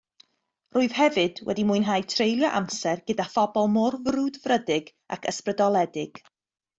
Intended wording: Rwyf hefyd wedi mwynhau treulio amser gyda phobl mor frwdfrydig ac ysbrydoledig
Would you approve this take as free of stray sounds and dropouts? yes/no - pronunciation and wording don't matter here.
yes